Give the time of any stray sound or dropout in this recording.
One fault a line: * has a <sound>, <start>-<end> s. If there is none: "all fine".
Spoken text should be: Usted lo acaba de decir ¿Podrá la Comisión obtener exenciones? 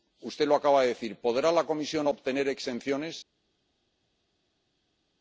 all fine